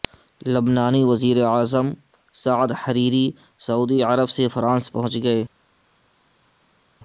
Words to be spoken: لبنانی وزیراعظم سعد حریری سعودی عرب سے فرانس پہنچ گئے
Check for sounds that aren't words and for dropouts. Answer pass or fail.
pass